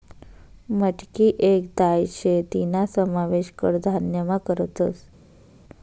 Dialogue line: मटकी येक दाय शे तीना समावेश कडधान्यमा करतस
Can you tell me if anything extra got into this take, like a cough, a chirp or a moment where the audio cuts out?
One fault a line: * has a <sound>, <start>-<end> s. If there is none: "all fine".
all fine